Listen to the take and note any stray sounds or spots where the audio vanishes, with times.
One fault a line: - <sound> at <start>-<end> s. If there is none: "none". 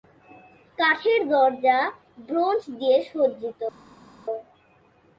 none